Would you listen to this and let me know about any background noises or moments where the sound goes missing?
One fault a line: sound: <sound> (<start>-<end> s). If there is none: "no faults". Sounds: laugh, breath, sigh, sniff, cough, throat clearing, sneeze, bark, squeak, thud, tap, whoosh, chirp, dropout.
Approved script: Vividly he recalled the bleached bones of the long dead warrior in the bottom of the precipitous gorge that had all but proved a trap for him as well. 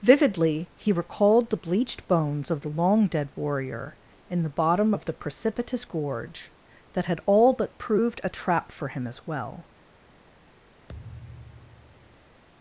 sound: thud (10.9-12.4 s)